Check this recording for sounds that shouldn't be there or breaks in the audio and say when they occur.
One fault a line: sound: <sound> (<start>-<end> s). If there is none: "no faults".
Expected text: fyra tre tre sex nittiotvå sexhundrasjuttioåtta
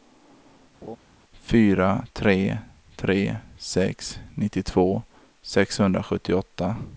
sound: laugh (0.8-1.0 s)